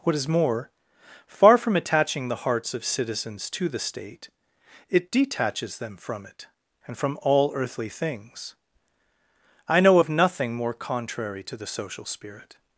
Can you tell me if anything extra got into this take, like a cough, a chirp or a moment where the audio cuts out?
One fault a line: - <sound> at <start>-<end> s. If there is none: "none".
none